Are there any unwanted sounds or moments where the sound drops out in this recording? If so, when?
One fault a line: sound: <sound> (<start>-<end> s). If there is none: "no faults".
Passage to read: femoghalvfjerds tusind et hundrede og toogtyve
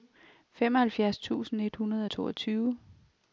no faults